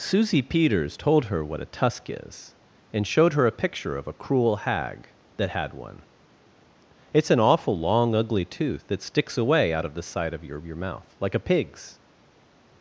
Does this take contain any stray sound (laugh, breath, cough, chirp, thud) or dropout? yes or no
no